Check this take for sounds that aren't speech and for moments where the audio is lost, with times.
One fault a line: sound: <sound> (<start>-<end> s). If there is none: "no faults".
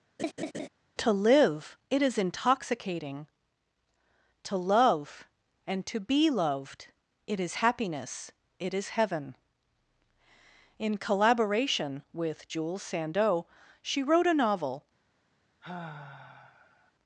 sound: laugh (0.2-0.7 s)
sound: sigh (15.6-16.9 s)